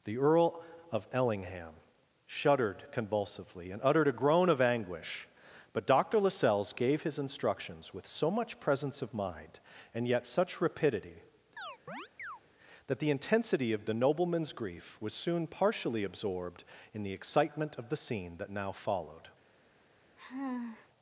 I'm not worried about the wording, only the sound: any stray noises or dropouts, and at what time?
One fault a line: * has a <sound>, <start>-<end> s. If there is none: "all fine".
* has a chirp, 11.6-12.4 s
* has a sigh, 20.2-20.9 s